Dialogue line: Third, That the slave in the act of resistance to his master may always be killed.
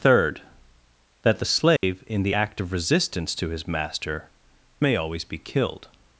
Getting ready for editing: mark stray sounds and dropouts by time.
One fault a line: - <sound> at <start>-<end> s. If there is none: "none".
- dropout at 1.8-1.8 s